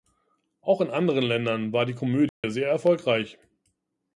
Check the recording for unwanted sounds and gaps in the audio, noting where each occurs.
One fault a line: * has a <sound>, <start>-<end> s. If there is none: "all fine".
* has a dropout, 2.3-2.4 s